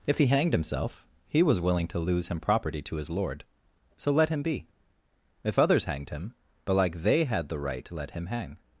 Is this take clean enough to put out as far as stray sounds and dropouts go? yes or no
yes